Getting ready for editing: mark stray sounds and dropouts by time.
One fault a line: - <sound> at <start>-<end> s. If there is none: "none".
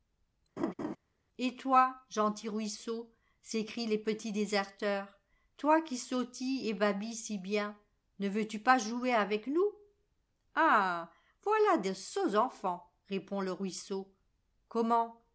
- laugh at 0.6-1.0 s